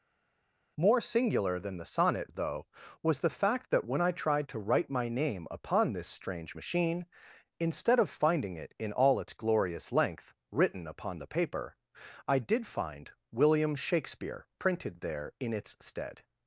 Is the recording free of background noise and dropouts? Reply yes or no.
yes